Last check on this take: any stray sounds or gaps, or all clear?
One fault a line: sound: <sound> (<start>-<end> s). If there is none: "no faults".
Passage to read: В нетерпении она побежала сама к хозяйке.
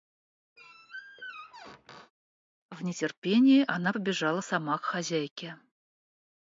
sound: squeak (0.6-2.1 s)